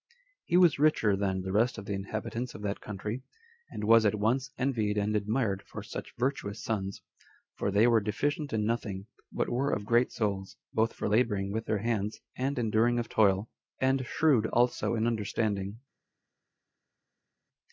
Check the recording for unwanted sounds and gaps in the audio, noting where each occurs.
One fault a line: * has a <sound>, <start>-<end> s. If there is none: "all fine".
all fine